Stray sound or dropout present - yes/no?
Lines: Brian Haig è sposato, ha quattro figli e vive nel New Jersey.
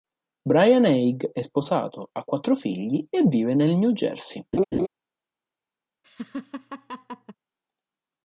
yes